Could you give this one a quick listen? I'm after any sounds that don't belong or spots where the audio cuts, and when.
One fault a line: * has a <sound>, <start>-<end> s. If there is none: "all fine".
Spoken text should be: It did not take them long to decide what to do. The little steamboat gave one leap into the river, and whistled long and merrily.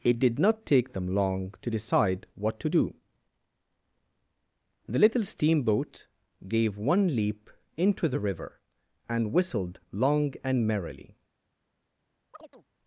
* has a chirp, 12.3-12.6 s